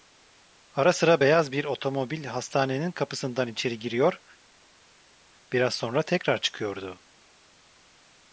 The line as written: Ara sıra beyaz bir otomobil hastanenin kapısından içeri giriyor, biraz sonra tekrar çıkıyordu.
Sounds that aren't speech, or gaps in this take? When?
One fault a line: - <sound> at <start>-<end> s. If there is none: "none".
none